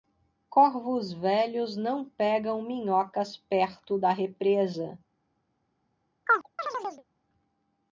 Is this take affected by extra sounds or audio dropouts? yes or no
yes